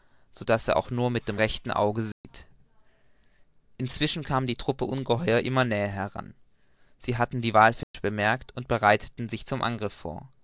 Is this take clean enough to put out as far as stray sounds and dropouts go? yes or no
no